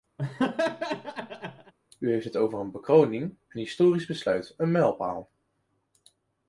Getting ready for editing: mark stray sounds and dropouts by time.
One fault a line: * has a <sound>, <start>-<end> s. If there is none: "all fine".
* has a laugh, 0.2-1.7 s